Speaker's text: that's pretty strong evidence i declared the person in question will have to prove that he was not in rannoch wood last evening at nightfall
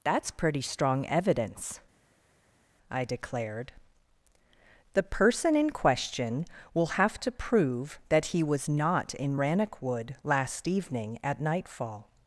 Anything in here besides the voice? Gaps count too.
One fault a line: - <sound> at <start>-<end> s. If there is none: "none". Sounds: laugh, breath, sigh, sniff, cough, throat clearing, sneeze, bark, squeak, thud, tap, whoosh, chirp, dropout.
none